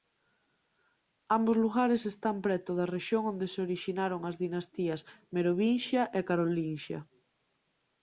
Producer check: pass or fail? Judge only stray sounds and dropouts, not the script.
pass